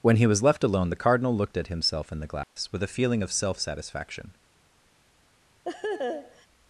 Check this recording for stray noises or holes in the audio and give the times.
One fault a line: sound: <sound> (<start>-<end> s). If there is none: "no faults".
sound: dropout (2.4-2.6 s)
sound: laugh (5.6-6.5 s)